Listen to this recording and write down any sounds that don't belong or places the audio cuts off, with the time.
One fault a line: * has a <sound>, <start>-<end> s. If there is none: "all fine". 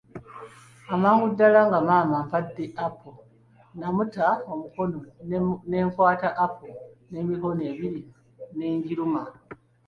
all fine